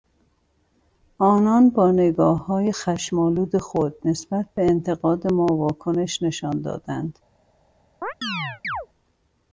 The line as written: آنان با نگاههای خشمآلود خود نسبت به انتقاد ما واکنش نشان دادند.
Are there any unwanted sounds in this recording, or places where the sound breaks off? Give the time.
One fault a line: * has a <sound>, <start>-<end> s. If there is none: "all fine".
* has a chirp, 8.0-8.9 s